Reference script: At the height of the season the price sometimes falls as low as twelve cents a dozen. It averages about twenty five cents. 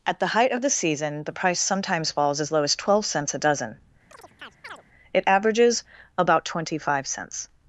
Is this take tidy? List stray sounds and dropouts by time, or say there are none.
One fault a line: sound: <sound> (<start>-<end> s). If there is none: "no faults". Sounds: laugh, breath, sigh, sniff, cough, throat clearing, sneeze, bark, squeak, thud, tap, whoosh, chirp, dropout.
sound: chirp (4.1-4.8 s)